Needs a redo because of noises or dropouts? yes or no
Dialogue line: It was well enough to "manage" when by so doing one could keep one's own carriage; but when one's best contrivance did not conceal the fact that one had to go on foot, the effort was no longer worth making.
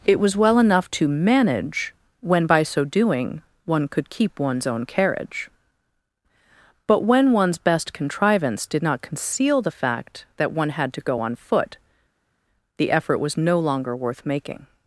no